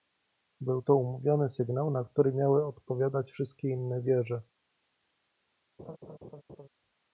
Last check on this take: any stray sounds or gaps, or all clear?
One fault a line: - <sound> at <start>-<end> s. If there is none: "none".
- laugh at 5.8-6.7 s